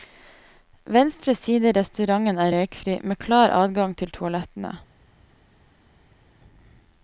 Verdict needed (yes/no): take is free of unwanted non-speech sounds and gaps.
yes